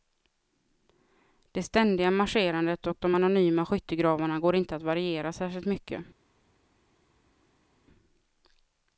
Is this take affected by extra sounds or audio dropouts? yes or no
no